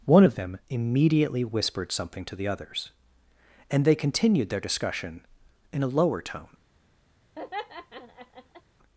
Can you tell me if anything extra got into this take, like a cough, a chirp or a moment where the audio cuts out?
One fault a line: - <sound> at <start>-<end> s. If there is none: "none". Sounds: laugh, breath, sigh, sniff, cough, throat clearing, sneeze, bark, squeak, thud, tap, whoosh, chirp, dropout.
- laugh at 7.4-8.6 s